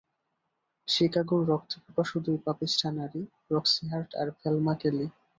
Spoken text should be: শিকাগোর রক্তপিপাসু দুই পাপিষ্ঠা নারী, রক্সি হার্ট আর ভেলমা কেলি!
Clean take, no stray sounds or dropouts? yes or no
yes